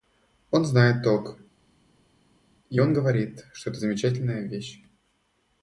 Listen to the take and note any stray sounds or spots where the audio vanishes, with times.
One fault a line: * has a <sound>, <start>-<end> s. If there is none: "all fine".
all fine